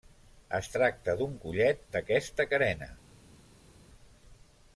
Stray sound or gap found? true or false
false